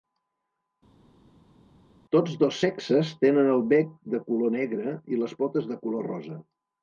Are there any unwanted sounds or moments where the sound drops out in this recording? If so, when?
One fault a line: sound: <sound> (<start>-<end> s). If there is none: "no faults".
no faults